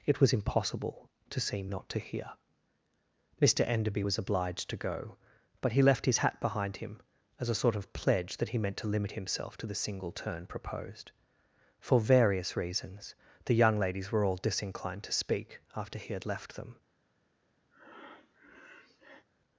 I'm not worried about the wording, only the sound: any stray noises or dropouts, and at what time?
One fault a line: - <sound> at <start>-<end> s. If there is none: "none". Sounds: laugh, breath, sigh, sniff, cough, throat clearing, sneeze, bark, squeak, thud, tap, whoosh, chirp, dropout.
- breath at 17.7-19.3 s